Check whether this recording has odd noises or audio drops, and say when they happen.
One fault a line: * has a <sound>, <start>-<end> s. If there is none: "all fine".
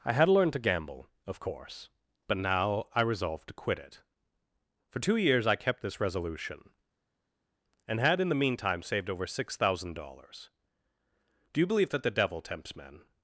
all fine